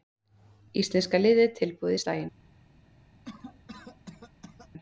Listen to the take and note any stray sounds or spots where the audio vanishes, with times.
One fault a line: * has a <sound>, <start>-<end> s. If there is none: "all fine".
* has a cough, 3.2-4.7 s